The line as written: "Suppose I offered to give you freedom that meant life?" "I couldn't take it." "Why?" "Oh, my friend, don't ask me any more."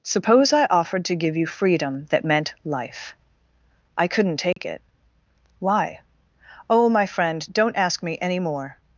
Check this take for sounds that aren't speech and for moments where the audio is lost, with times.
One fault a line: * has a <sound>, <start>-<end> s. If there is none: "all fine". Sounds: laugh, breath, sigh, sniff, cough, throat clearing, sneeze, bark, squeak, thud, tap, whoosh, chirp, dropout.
* has a dropout, 4.5-4.6 s